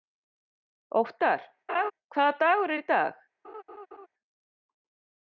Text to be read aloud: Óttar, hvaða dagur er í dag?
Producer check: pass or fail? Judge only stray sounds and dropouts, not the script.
fail